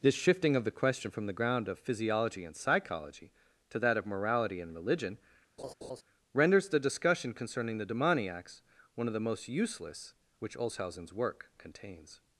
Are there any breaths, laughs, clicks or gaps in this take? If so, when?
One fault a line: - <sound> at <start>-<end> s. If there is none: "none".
- laugh at 5.6-6.0 s